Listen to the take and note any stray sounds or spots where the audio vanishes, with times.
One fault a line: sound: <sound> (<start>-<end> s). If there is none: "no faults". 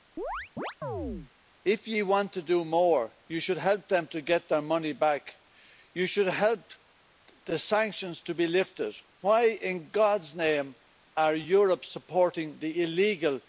sound: chirp (0.2-1.3 s)